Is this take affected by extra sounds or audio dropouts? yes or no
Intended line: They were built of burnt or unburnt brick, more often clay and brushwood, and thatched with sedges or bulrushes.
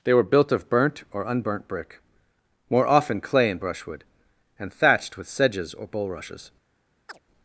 yes